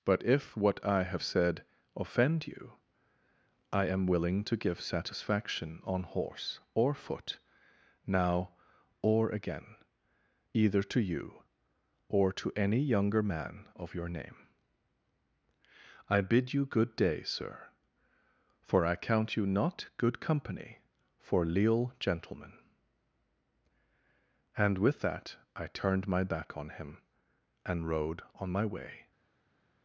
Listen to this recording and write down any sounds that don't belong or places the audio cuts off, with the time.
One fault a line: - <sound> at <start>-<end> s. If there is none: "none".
none